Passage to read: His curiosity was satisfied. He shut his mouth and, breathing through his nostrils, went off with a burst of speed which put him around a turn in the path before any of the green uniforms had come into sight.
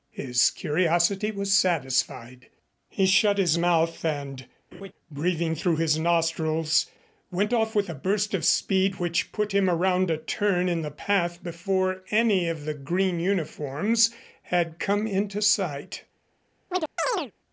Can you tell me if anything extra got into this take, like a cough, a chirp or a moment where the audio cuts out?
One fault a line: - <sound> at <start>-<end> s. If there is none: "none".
- laugh at 4.7-4.9 s
- chirp at 16.7-17.3 s